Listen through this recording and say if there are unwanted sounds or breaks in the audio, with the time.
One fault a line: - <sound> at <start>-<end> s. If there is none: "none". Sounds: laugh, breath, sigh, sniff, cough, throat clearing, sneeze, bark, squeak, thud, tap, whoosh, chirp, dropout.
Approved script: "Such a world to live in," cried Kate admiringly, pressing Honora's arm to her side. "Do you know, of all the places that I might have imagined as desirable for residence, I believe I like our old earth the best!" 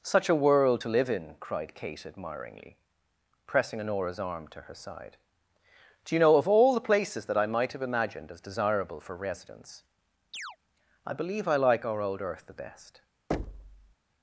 - chirp at 10.3-10.6 s
- thud at 13.3-14.0 s